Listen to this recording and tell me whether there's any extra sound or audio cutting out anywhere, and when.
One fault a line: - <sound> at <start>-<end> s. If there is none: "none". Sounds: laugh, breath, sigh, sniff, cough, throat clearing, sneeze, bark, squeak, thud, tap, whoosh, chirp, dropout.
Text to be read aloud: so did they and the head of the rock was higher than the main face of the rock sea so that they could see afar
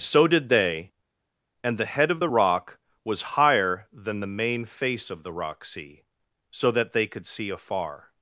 none